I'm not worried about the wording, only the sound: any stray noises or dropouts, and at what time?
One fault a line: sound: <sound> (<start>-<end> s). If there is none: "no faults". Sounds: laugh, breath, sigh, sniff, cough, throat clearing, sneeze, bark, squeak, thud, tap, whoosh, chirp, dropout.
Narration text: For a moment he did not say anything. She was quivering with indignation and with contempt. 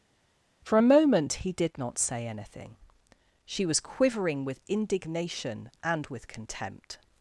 no faults